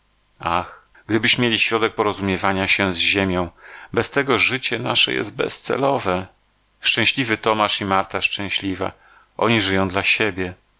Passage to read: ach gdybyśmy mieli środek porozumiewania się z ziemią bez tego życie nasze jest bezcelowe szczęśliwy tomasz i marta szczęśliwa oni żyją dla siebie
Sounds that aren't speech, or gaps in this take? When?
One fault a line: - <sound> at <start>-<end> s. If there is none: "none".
none